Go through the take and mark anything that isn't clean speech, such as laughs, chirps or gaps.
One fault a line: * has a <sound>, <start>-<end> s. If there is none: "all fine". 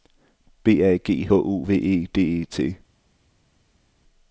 all fine